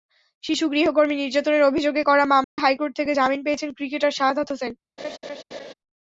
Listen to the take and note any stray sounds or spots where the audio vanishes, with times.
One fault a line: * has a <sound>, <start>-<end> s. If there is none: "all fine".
* has a dropout, 2.4-2.6 s
* has a laugh, 5.0-5.7 s